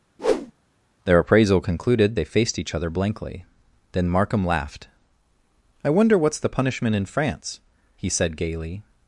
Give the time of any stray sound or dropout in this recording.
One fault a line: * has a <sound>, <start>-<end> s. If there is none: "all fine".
* has a whoosh, 0.2-0.5 s